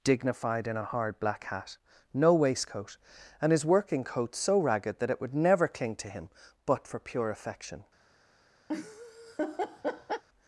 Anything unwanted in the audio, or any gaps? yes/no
yes